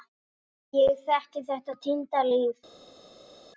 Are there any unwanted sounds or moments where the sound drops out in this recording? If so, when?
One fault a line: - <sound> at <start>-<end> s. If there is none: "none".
none